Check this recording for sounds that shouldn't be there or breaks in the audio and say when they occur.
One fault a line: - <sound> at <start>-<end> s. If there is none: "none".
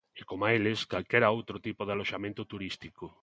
none